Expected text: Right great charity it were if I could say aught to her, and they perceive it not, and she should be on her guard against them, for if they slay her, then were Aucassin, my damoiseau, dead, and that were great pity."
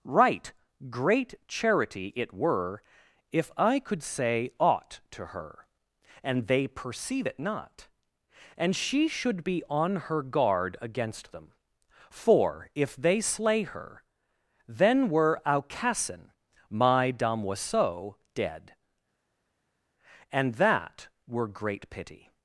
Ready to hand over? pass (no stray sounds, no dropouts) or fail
pass